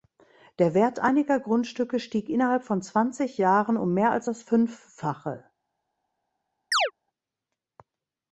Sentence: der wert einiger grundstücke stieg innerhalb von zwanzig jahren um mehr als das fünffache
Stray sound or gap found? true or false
true